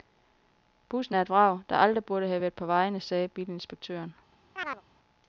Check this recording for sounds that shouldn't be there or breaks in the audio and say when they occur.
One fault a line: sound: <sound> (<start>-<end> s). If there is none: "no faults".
sound: chirp (4.6-4.8 s)